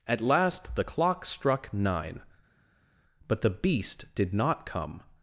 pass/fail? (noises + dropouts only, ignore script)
pass